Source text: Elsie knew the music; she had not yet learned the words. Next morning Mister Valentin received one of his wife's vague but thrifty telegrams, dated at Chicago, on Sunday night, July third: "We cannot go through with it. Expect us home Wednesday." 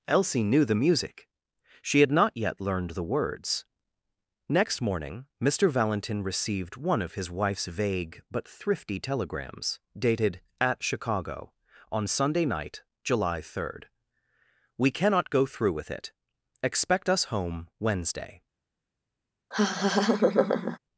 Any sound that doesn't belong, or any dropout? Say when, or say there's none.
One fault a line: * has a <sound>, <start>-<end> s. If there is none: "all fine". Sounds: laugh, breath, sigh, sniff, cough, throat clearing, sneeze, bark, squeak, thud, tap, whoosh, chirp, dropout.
* has a laugh, 19.5-20.8 s